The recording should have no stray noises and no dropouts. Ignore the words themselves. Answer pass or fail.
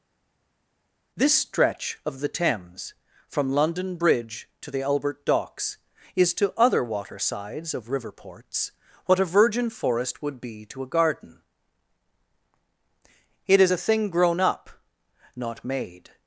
pass